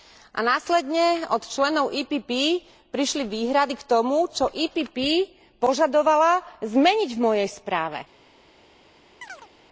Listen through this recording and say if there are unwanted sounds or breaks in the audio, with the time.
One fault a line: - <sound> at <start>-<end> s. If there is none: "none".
- chirp at 9.2-9.5 s